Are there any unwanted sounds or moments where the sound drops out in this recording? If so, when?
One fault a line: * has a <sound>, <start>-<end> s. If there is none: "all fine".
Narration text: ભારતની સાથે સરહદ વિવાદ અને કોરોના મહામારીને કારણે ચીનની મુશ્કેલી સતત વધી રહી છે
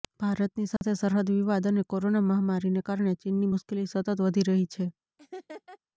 * has a dropout, 0.8-0.8 s
* has a laugh, 5.2-5.8 s